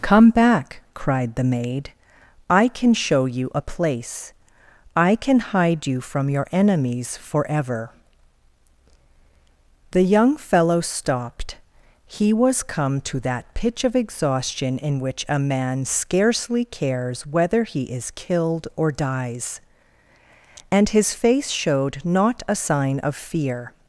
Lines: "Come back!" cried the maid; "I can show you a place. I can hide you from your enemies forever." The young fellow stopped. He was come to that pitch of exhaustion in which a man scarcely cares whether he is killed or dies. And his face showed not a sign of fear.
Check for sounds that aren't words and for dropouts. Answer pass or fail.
pass